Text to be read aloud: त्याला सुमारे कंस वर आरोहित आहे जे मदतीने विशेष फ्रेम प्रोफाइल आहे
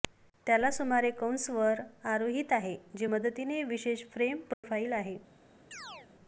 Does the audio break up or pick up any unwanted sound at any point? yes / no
yes